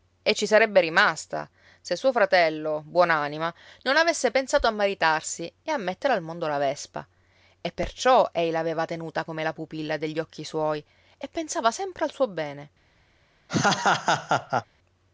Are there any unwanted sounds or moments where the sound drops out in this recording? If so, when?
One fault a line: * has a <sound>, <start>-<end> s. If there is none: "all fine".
* has a laugh, 13.5-14.7 s